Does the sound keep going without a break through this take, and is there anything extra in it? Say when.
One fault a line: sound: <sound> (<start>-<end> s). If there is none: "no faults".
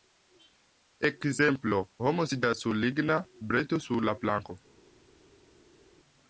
no faults